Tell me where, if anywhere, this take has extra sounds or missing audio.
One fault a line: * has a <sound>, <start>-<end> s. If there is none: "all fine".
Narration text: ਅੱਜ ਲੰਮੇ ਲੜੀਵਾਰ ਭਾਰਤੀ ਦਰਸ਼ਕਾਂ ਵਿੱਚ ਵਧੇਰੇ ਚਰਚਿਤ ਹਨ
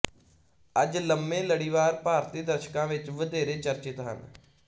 all fine